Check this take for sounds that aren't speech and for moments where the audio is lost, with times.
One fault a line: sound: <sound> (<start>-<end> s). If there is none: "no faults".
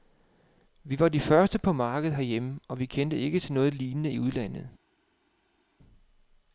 no faults